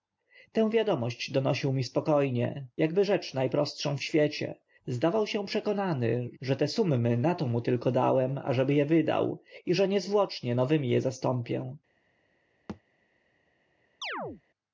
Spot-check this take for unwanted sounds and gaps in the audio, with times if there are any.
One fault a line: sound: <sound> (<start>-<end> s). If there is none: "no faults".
sound: thud (12.7-12.8 s)
sound: chirp (14.0-14.4 s)